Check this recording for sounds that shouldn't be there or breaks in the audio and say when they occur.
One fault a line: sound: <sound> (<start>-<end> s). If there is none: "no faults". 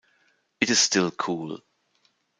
no faults